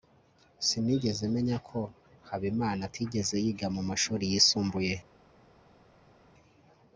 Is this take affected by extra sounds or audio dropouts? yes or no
no